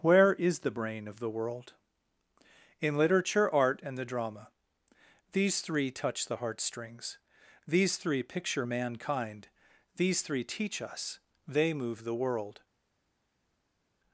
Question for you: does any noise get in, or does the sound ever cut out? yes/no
no